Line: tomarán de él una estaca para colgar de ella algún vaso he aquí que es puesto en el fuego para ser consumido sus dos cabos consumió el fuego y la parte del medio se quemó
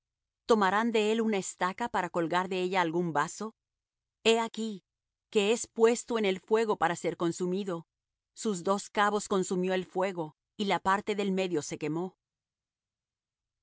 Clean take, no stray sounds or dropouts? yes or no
yes